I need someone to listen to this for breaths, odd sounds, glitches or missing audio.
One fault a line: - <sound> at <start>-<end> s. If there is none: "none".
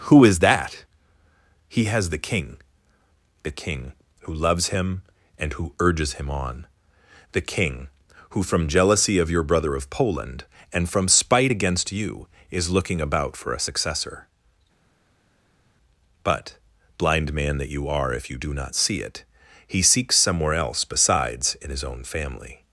none